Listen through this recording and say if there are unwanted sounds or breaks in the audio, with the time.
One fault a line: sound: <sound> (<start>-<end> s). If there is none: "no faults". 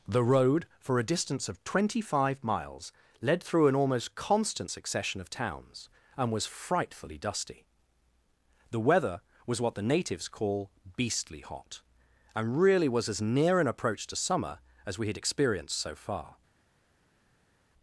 no faults